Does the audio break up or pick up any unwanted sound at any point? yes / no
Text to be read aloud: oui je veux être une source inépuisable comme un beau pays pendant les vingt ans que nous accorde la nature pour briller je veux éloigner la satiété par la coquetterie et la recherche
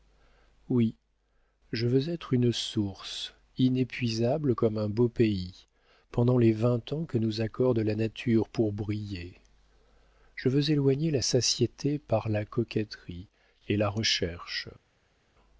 no